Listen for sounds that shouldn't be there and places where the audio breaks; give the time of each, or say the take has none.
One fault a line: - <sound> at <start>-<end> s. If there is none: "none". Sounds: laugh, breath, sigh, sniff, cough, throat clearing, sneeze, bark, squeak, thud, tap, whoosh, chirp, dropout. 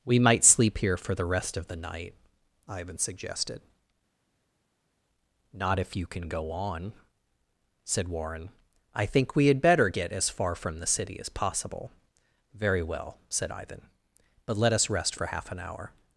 none